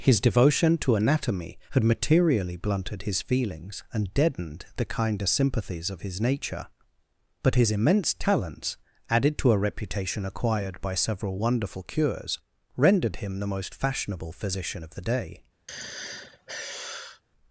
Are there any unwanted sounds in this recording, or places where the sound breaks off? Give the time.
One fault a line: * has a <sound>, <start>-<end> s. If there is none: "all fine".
* has a sigh, 15.7-17.2 s